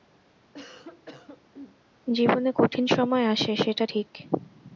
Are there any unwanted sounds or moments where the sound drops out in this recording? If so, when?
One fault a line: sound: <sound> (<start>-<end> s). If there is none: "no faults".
sound: cough (0.5-1.8 s)